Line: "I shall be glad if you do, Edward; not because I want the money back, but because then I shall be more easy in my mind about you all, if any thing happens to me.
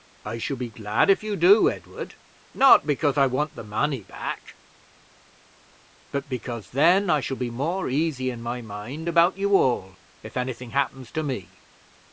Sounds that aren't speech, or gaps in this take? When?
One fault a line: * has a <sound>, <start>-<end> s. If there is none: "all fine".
all fine